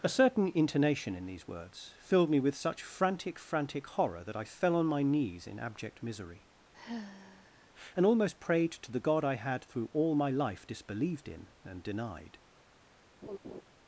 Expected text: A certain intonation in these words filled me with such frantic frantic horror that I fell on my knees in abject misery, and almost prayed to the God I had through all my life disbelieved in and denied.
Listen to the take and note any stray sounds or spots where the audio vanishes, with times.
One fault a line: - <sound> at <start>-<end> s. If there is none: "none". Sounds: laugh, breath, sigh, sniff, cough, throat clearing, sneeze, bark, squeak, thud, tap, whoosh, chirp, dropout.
- sigh at 6.7-7.7 s
- laugh at 13.2-13.6 s